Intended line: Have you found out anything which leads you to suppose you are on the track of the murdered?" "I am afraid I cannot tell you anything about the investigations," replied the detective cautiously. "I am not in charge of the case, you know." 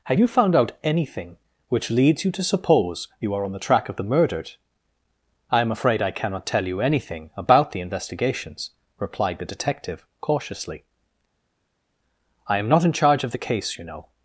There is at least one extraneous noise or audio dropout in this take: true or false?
false